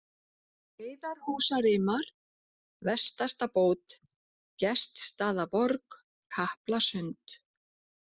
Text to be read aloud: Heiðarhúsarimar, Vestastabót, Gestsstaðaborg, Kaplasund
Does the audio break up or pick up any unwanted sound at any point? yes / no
no